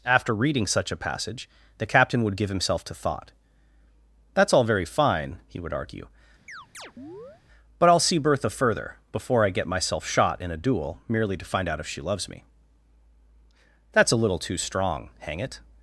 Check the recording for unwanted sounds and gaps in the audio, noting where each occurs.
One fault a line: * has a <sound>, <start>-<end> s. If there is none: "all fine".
* has a chirp, 6.5-7.4 s